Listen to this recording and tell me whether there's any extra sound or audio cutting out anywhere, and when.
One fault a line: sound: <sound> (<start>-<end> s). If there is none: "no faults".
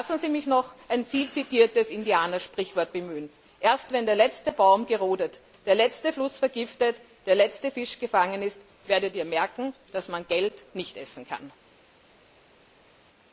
no faults